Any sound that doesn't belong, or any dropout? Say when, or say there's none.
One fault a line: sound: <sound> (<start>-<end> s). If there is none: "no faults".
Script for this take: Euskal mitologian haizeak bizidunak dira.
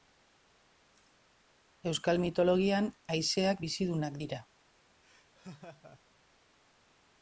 sound: laugh (5.0-6.0 s)